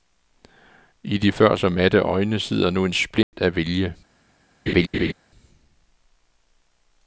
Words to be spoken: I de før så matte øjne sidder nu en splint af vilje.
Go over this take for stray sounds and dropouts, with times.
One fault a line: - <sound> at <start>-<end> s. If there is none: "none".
- dropout at 3.2-3.3 s
- laugh at 4.7-5.1 s